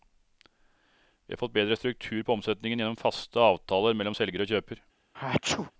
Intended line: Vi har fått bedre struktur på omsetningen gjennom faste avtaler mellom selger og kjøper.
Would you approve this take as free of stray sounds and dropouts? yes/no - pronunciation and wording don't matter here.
no